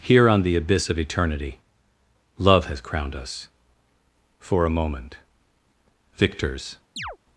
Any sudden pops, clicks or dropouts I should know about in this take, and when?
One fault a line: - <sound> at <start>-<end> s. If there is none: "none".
- chirp at 7.0-7.2 s